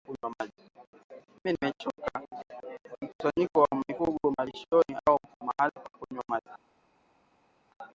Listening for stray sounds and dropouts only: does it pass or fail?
pass